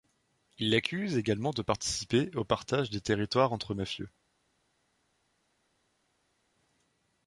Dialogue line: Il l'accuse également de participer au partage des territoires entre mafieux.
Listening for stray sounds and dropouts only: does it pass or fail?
pass